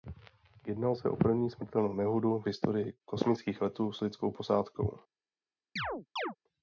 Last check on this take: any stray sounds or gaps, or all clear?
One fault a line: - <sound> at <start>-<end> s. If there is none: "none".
- chirp at 5.8-6.4 s